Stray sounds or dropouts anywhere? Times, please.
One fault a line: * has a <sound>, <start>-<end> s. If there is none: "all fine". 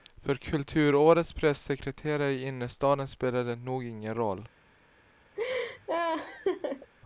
* has a laugh, 5.4-6.9 s